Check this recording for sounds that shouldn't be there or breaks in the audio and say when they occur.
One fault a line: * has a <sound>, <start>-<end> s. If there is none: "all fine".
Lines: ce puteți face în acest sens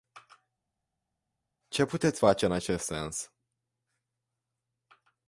all fine